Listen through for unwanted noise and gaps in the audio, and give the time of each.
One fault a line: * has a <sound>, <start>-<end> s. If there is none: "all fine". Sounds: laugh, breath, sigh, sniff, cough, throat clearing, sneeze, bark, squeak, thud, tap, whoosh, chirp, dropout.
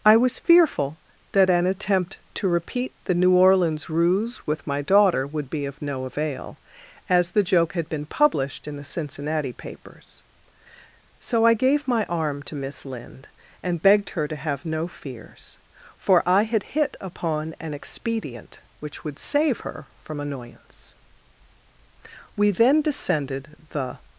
all fine